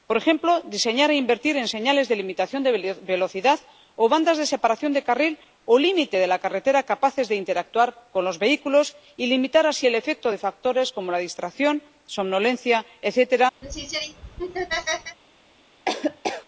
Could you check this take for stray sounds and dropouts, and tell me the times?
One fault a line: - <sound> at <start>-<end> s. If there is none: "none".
- laugh at 13.6-15.2 s
- laugh at 15.9-16.5 s